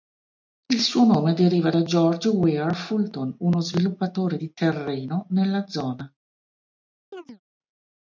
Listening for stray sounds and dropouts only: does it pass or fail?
fail